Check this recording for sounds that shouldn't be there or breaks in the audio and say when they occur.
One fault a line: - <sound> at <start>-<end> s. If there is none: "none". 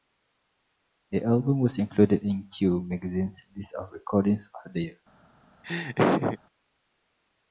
- laugh at 5.6-6.4 s